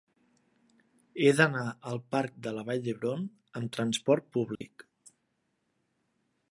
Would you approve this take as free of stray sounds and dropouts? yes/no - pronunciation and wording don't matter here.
no